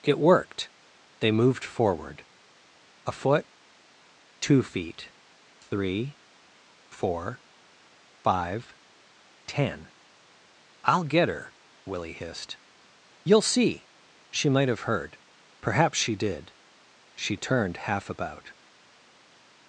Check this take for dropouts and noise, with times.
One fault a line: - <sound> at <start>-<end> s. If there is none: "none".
none